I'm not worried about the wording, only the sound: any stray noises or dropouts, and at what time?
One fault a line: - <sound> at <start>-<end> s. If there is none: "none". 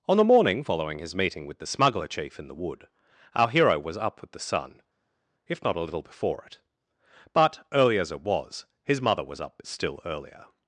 none